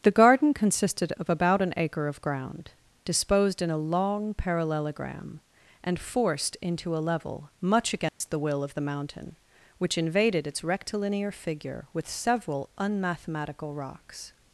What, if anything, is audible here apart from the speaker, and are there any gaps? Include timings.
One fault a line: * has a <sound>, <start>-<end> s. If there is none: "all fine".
* has a dropout, 8.1-8.2 s